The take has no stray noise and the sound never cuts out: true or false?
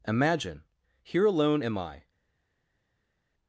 true